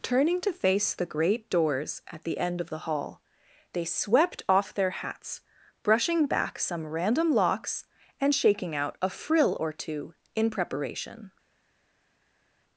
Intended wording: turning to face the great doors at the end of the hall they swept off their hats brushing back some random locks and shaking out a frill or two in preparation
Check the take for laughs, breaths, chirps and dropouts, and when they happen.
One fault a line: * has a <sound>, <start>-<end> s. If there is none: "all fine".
all fine